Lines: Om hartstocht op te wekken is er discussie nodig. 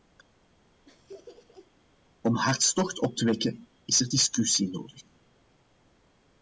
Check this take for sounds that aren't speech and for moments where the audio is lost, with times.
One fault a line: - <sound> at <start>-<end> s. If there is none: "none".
- laugh at 0.9-1.7 s